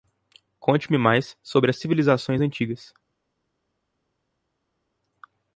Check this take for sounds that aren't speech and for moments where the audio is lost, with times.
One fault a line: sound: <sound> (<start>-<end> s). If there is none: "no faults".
no faults